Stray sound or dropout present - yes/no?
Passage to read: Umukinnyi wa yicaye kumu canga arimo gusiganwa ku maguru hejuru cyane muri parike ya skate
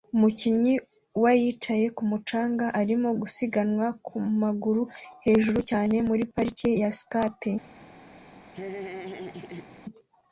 yes